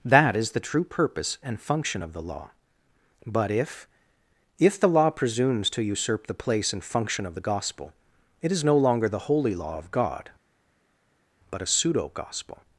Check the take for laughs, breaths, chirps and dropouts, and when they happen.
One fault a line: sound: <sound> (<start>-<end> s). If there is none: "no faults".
no faults